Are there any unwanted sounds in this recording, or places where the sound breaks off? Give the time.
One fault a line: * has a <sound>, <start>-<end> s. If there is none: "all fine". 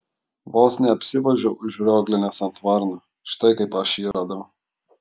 * has a dropout, 4.1-4.1 s